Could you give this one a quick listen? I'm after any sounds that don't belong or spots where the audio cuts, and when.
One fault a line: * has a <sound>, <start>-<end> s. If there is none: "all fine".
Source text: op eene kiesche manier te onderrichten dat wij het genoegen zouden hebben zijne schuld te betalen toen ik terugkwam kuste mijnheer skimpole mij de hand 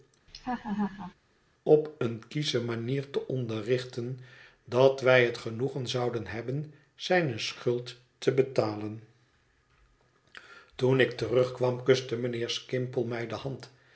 * has a laugh, 0.3-1.1 s